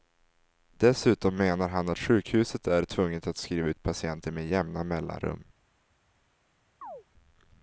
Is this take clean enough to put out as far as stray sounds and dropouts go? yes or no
no